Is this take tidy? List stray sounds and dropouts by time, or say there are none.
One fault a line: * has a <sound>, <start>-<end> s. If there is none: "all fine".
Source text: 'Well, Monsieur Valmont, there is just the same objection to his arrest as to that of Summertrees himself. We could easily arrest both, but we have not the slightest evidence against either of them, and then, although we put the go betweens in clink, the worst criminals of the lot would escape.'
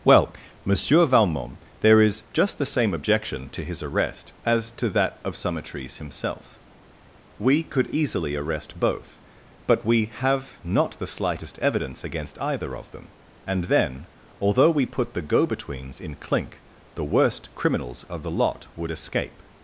all fine